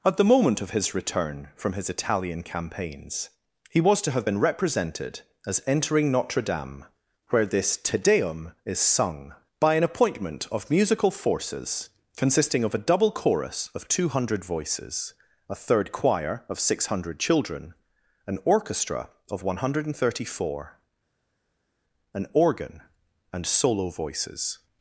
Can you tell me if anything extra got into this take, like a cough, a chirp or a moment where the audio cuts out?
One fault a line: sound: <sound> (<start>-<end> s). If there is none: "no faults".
no faults